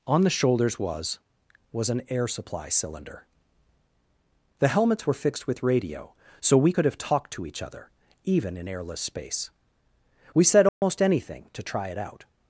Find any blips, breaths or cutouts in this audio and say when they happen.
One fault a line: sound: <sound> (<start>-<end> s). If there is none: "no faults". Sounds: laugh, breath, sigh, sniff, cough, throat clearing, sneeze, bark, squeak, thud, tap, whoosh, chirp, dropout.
sound: dropout (10.7-10.8 s)